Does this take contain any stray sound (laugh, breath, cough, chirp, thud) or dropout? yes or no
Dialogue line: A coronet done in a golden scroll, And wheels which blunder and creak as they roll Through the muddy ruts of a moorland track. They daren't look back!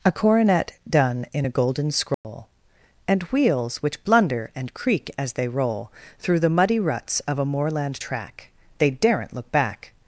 yes